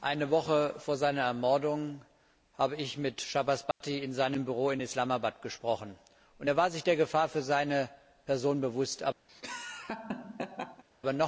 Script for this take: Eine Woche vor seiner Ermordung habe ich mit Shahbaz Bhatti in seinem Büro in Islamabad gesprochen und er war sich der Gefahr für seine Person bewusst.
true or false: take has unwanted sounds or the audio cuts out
true